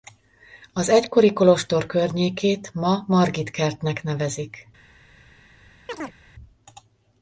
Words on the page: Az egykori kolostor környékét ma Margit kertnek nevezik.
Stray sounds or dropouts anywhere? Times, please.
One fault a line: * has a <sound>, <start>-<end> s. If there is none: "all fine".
* has a chirp, 5.9-6.2 s